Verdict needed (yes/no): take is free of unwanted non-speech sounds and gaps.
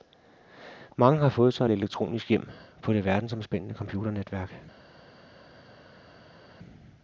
yes